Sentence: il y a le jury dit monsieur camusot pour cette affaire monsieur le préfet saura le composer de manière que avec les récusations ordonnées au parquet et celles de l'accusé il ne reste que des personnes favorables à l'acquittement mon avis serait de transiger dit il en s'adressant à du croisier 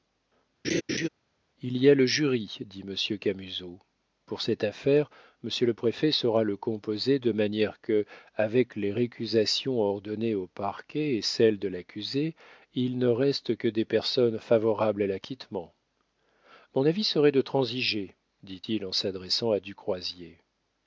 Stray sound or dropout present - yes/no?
yes